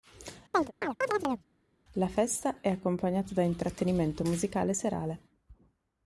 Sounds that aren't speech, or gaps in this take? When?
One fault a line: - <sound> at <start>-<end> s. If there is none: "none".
- chirp at 0.5-1.5 s